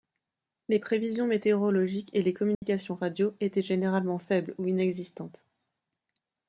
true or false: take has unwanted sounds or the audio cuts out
true